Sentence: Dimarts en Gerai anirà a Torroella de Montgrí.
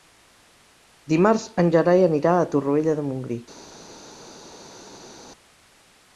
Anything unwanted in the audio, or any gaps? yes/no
no